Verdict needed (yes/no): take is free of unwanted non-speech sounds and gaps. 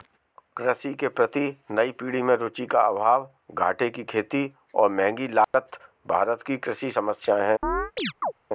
no